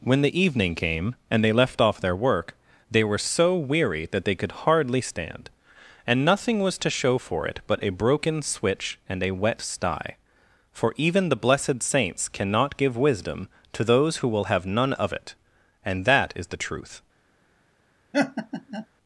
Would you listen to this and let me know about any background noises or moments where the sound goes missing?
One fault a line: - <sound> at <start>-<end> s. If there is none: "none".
- laugh at 18.1-18.9 s